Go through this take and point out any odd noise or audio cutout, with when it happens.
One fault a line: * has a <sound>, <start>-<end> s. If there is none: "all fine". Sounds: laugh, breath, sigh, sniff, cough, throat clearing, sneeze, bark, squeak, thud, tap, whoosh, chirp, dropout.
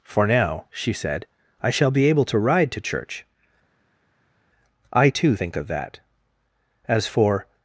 all fine